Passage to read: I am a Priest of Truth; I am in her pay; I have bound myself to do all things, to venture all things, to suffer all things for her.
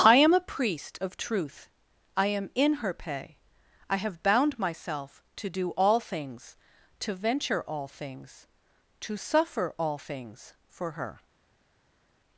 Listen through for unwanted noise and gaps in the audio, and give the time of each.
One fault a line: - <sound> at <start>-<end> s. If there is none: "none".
none